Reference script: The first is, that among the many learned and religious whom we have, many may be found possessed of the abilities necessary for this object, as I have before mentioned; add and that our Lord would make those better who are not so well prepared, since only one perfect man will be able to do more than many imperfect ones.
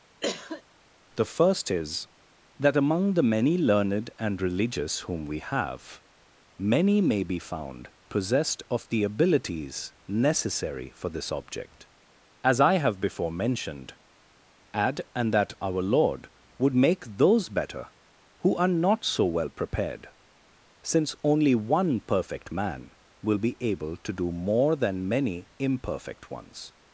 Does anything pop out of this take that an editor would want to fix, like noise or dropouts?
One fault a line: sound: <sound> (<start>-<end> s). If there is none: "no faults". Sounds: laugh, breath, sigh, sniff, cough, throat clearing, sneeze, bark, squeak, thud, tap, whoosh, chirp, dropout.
sound: cough (0.2-0.6 s)